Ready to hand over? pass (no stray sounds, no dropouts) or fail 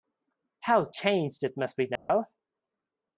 fail